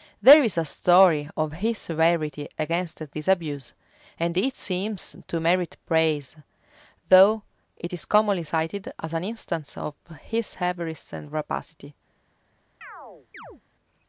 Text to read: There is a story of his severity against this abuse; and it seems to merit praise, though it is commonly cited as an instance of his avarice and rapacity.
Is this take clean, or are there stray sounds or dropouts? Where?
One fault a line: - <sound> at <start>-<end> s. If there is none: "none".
- chirp at 12.8-13.6 s